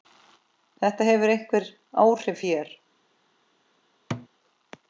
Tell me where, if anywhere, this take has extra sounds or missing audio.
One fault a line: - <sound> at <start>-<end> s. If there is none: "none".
- thud at 4.1-4.3 s